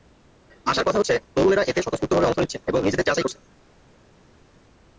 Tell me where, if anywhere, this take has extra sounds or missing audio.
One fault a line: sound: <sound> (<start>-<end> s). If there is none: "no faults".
no faults